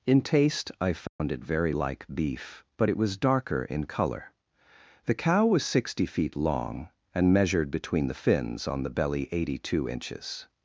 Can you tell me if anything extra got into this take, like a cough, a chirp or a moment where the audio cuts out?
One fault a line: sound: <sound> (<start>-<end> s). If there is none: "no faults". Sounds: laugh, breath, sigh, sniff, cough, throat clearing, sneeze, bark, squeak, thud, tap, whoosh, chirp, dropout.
sound: dropout (1.1-1.2 s)